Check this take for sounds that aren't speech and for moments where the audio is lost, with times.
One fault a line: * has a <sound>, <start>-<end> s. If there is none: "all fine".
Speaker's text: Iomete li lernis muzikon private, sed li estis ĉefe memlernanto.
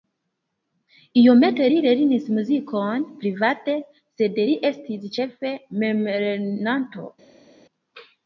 all fine